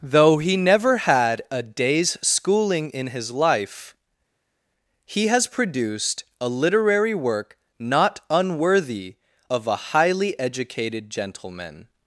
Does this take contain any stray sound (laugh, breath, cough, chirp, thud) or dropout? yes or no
no